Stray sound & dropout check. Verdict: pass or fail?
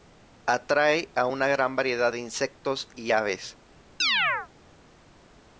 fail